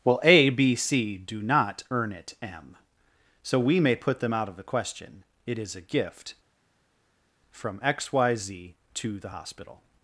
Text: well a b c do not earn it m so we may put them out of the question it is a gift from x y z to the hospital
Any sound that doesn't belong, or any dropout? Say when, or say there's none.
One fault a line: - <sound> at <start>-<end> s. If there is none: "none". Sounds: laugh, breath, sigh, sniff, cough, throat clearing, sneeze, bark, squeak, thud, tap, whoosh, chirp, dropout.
none